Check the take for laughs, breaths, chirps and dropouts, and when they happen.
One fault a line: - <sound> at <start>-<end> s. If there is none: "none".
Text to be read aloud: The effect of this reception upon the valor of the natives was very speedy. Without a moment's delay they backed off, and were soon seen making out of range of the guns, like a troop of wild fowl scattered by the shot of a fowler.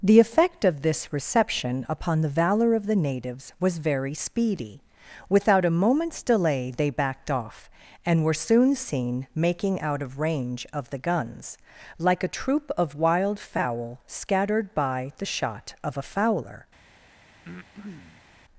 - breath at 17.4-18.3 s